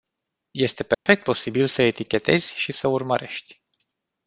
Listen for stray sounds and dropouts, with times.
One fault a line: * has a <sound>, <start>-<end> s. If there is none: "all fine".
* has a dropout, 0.9-1.1 s